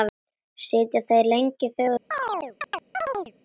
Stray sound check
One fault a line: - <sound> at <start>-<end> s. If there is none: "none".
- chirp at 2.1-3.3 s